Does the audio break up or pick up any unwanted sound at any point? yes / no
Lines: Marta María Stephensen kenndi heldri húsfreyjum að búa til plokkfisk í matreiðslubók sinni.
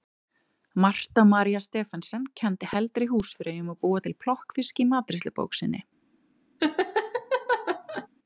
yes